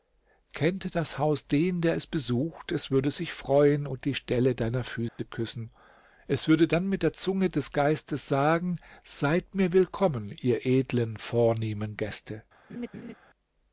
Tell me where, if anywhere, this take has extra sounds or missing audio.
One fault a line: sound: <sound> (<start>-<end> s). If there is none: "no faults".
sound: dropout (5.1-5.2 s)
sound: laugh (12.7-13.1 s)